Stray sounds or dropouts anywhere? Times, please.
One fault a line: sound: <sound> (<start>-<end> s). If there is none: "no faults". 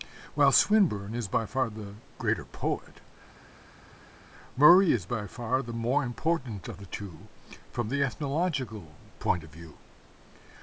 no faults